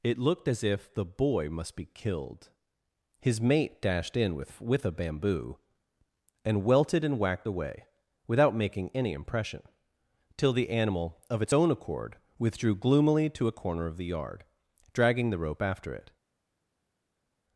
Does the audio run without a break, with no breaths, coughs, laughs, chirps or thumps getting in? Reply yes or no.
yes